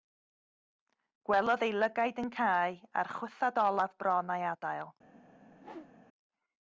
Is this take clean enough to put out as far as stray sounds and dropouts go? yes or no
no